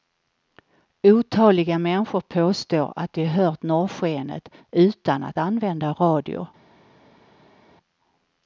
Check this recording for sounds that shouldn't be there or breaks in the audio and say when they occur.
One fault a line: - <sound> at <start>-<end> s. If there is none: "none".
none